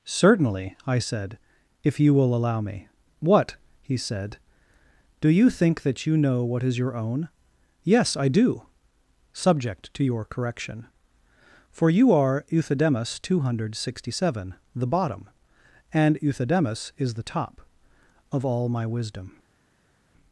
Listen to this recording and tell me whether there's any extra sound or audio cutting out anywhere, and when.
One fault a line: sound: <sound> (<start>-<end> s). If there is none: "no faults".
no faults